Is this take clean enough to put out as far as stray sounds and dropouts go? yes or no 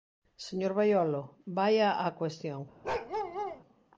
no